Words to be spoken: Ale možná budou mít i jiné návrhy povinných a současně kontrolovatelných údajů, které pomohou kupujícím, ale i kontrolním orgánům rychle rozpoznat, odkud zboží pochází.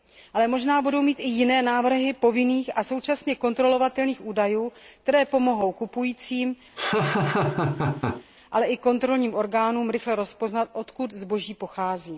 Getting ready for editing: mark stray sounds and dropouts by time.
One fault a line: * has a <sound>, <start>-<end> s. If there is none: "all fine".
* has a laugh, 6.8-8.2 s